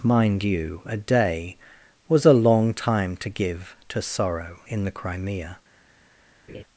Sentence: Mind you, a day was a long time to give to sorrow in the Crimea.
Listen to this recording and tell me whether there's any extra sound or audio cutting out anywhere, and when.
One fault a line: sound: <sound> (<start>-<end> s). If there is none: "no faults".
sound: laugh (6.5-6.6 s)